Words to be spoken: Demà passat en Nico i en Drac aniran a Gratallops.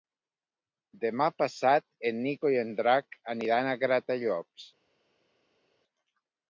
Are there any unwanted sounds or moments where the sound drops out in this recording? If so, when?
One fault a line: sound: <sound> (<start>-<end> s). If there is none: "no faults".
no faults